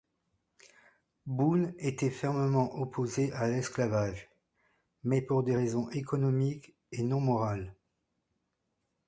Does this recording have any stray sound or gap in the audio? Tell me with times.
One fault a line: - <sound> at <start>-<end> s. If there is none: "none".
none